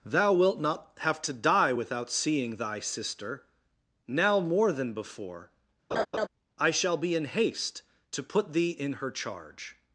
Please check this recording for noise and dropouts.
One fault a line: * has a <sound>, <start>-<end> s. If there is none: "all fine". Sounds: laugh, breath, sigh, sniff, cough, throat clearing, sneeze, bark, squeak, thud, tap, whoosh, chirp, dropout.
* has a laugh, 5.9-6.3 s